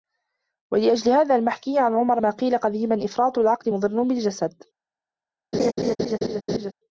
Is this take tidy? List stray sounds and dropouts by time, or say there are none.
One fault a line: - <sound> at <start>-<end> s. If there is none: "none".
- laugh at 5.5-6.7 s